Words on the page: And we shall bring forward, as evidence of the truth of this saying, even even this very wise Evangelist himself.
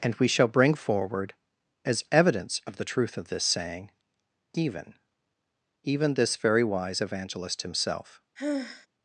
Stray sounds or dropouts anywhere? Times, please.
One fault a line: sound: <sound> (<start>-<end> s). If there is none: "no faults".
sound: sigh (8.4-8.9 s)